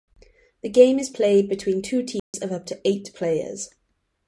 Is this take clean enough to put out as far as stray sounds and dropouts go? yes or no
no